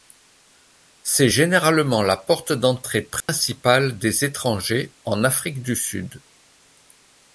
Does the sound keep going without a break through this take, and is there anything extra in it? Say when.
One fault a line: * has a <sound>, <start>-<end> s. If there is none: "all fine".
* has a dropout, 3.2-3.3 s